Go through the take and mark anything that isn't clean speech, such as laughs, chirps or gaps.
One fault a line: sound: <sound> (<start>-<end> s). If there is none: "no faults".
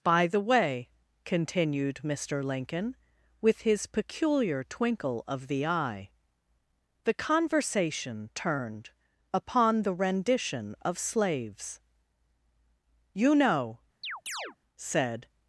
sound: chirp (14.0-14.6 s)